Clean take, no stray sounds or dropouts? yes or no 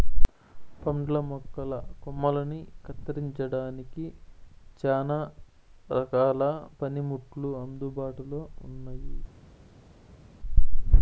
yes